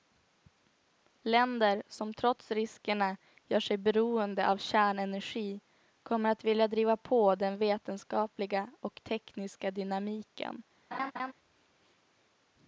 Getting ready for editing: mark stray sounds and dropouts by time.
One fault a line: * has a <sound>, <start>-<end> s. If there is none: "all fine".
* has a laugh, 10.9-11.3 s